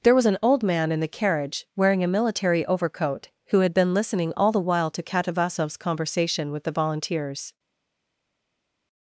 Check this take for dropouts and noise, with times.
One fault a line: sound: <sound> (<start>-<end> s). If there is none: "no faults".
no faults